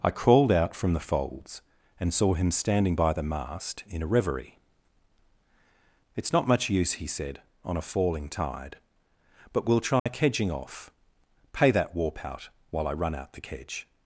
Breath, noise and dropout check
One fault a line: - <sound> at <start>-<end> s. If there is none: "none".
- dropout at 10.0-10.1 s